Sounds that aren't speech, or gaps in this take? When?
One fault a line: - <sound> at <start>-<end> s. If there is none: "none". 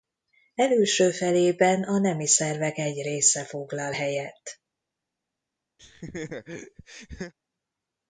- laugh at 5.8-7.3 s